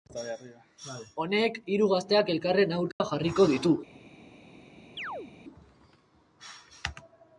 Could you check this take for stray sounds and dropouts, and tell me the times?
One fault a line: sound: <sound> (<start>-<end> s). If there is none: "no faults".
sound: dropout (2.9-3.0 s)
sound: chirp (5.0-5.3 s)